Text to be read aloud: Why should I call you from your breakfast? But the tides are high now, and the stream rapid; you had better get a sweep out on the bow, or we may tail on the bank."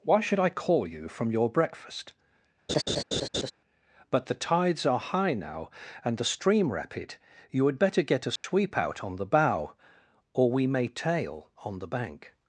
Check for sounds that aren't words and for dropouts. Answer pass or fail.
fail